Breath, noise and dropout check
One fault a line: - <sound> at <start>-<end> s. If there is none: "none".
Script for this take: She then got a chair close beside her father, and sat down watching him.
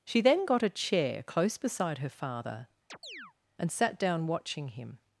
- chirp at 2.9-3.3 s